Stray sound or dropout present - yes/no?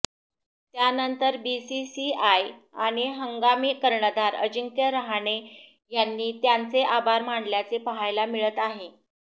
no